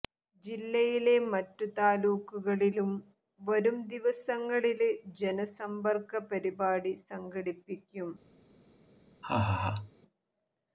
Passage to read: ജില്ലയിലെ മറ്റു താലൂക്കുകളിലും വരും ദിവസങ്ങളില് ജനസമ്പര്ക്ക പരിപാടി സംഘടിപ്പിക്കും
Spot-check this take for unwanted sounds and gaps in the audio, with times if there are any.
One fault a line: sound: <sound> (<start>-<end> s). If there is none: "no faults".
sound: laugh (9.2-9.9 s)